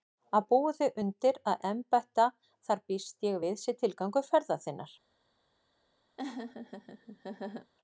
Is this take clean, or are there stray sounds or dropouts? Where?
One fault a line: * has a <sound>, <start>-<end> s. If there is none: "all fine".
* has a laugh, 6.2-7.7 s